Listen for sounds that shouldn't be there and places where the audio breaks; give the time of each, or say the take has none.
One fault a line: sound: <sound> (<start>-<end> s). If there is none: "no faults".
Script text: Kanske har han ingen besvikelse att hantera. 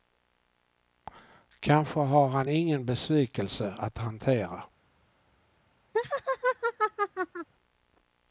sound: laugh (5.9-7.5 s)